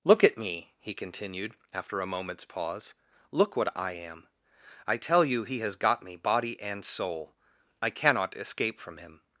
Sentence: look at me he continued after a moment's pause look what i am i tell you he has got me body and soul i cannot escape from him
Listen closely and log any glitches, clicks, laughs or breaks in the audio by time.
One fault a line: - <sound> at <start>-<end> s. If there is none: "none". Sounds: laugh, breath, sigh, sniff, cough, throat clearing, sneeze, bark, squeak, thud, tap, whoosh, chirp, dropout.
none